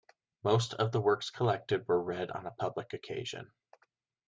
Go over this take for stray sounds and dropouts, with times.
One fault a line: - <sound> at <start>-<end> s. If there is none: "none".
none